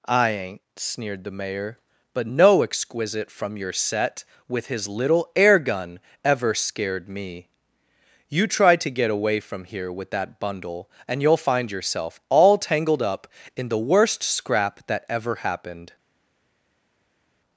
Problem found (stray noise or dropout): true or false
false